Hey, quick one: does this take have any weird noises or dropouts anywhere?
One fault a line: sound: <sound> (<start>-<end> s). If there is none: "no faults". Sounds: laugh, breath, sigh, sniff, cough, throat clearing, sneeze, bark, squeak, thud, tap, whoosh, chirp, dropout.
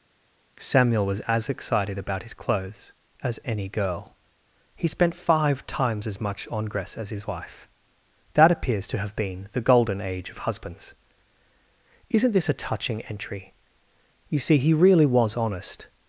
no faults